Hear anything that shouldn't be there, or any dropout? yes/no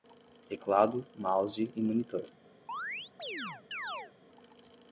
yes